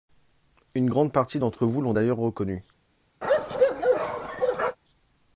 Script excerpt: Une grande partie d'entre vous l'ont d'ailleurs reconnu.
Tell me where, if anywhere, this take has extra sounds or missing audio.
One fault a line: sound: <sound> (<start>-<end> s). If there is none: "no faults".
sound: bark (3.2-4.8 s)